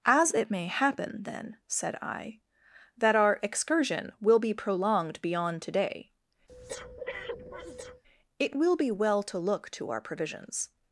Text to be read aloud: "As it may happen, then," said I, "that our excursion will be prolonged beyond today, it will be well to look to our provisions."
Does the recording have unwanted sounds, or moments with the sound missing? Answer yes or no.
yes